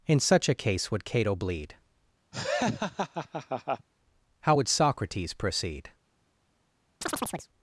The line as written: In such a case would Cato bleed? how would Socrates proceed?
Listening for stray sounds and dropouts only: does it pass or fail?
fail